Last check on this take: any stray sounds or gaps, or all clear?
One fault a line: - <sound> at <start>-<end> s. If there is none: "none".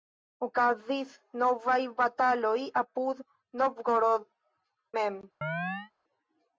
- chirp at 5.4-5.9 s